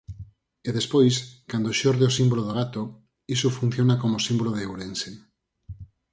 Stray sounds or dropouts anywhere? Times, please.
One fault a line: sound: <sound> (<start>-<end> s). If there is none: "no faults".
no faults